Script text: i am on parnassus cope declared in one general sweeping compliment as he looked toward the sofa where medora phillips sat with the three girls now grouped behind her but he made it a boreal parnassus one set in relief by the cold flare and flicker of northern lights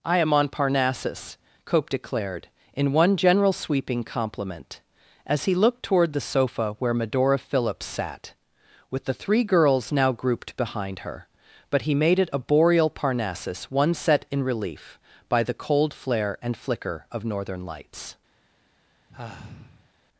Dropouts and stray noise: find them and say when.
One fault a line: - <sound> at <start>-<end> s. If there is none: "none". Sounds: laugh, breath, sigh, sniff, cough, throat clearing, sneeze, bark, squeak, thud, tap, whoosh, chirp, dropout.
- sigh at 19.1-19.9 s